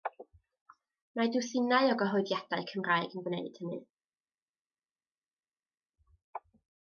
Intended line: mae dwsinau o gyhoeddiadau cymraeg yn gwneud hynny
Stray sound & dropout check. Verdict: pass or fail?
pass